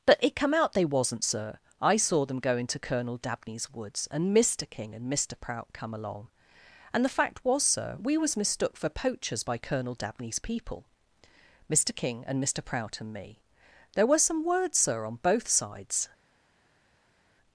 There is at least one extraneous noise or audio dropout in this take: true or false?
false